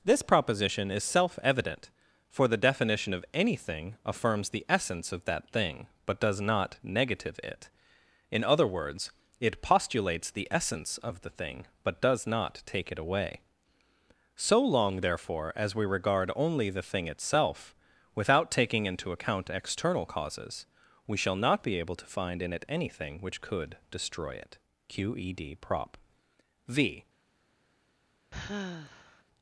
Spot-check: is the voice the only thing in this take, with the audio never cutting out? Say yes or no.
no